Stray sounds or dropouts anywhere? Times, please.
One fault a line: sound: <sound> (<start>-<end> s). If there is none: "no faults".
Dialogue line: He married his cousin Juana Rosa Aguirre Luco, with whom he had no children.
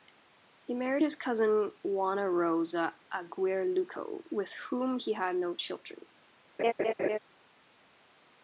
sound: laugh (6.6-7.2 s)